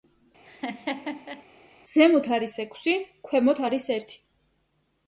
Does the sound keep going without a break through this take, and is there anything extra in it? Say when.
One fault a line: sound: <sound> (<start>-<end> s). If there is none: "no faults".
sound: laugh (0.4-1.4 s)